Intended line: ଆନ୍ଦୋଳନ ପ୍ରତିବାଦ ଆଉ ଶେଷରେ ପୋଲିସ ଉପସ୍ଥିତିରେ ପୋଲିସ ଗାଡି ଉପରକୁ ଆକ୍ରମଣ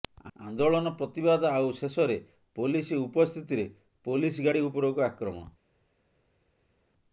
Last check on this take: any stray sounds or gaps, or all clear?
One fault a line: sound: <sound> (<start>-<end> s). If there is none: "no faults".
no faults